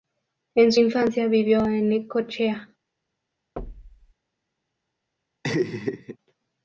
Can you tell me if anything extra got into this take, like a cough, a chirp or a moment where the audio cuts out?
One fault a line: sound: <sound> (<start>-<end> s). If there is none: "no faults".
sound: thud (3.6-4.1 s)
sound: laugh (5.4-6.2 s)